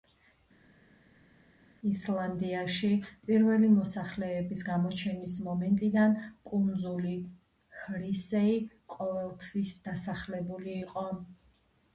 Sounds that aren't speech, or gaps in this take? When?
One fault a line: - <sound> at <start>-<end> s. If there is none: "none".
none